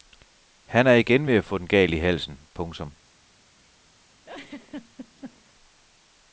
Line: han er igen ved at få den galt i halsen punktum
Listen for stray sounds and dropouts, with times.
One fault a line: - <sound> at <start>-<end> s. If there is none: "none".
- laugh at 4.2-5.5 s